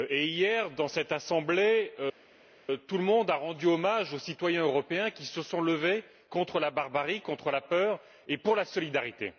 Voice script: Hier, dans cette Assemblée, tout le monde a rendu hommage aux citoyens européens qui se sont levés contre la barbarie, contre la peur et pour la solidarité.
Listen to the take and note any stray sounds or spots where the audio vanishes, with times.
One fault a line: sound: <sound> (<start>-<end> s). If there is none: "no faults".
no faults